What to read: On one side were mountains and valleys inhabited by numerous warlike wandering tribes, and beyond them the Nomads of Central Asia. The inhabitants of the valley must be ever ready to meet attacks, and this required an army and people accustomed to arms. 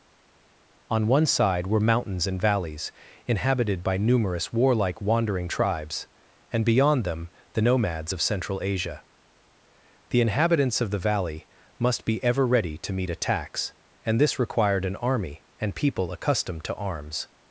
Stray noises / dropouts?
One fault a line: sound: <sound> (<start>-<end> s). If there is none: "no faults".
no faults